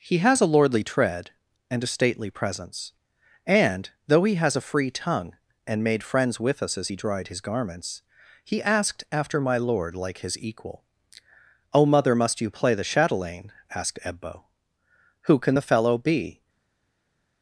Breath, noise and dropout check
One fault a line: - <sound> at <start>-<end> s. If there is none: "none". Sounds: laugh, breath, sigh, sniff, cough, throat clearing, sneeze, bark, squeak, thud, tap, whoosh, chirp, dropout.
none